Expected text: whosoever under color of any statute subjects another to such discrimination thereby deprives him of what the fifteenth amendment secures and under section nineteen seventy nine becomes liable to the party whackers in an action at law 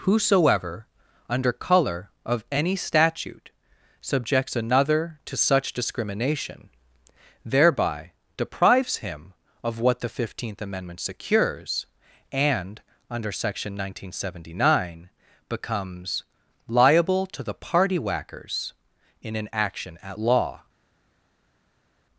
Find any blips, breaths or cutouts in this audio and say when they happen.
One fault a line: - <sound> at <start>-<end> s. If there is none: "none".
none